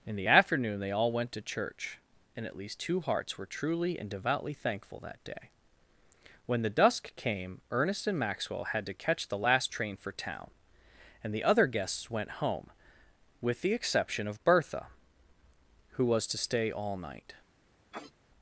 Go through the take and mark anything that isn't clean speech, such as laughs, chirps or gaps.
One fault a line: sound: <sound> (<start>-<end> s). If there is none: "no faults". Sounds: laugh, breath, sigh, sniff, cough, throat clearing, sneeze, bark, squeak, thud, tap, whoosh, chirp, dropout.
sound: sniff (17.9-18.1 s)